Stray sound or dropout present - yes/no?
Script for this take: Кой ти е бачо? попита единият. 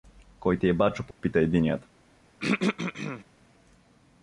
yes